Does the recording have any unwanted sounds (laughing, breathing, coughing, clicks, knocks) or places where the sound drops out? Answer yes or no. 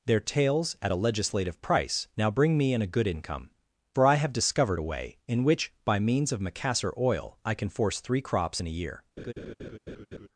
yes